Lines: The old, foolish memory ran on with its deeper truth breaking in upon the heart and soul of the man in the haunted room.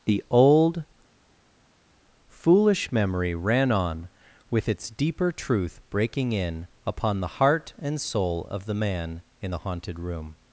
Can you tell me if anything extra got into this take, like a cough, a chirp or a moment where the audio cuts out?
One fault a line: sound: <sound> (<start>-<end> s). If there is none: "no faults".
no faults